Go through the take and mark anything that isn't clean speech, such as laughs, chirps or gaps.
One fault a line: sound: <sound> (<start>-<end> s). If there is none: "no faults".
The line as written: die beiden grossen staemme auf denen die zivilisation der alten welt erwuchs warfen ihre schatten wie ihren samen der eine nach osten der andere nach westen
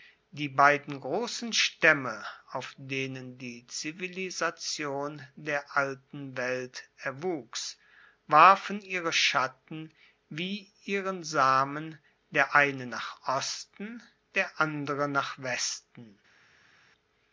no faults